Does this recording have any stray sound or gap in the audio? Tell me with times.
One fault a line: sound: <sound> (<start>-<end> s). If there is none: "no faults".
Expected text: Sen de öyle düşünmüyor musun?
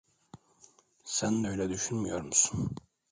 no faults